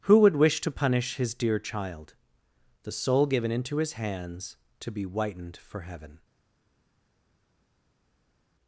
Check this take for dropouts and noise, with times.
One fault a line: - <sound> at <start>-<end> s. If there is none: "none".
none